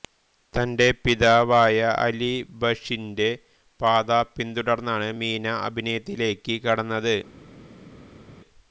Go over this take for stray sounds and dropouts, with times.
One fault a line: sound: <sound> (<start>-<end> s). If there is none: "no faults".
no faults